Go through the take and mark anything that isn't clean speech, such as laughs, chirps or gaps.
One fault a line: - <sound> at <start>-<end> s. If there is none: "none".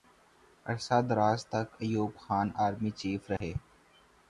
- dropout at 3.4-3.4 s